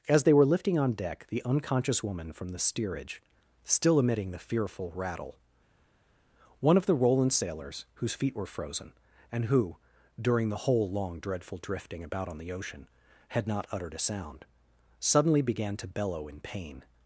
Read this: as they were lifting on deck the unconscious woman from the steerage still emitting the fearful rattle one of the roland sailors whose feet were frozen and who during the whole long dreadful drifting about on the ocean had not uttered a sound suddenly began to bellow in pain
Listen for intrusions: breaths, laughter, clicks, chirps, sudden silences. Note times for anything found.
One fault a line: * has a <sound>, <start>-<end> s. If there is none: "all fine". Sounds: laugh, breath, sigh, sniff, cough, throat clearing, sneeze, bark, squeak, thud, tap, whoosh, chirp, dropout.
all fine